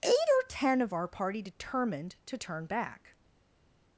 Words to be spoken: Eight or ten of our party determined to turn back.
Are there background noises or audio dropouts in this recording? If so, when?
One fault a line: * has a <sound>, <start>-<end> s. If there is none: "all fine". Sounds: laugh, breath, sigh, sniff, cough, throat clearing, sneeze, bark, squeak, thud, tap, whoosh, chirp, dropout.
all fine